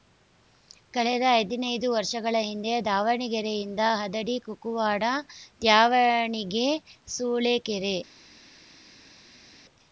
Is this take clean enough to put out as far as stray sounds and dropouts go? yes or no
yes